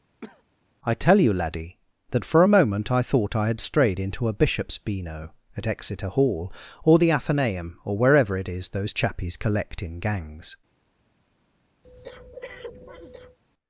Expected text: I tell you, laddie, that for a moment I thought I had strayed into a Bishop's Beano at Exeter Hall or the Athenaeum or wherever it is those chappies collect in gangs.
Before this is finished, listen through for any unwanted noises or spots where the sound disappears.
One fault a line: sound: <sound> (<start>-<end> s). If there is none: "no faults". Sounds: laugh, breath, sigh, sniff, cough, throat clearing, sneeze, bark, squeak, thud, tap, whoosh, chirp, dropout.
sound: cough (0.2-0.4 s)
sound: breath (11.8-13.4 s)